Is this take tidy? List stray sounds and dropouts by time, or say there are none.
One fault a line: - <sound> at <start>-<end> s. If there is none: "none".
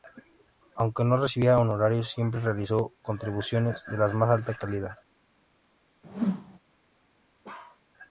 - whoosh at 6.0-6.6 s
- bark at 7.4-7.8 s